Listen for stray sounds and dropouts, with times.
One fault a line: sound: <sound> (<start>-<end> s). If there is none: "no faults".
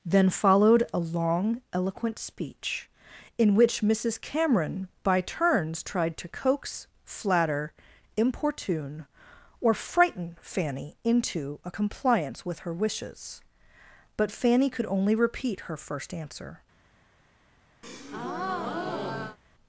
sound: breath (17.8-19.4 s)